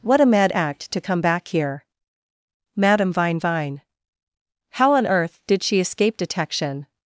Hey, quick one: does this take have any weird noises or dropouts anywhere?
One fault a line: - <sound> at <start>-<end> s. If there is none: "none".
none